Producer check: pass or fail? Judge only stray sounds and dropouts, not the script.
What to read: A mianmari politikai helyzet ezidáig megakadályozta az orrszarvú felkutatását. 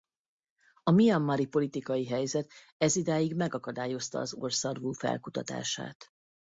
pass